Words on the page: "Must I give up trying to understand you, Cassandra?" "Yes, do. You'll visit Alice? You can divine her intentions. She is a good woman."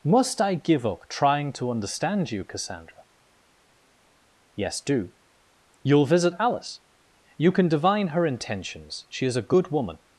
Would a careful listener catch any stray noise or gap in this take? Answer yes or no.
no